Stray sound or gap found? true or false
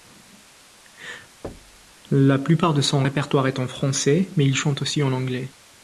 true